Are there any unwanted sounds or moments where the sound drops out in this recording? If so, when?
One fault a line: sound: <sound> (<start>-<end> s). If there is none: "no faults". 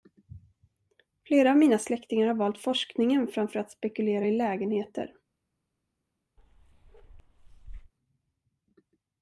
sound: bark (6.4-7.9 s)